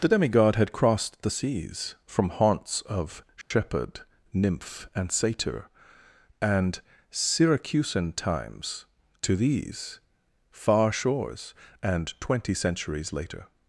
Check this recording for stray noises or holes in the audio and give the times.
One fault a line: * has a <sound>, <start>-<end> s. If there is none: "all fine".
* has a dropout, 3.4-3.5 s